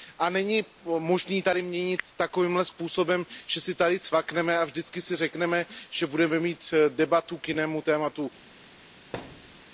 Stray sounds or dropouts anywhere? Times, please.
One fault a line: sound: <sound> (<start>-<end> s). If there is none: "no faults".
sound: thud (9.1-9.6 s)